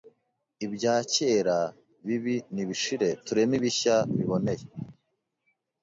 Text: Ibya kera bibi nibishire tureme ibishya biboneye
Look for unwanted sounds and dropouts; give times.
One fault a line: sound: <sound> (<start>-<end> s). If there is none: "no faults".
no faults